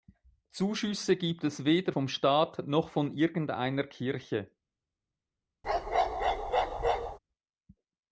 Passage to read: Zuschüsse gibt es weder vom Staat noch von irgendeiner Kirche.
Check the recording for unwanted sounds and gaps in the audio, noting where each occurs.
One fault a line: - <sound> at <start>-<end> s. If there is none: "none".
- bark at 5.6-7.2 s